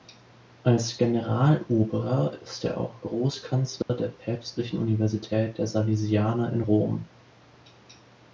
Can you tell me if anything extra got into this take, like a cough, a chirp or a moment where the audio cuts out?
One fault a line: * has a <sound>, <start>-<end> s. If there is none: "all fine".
* has a dropout, 3.8-3.9 s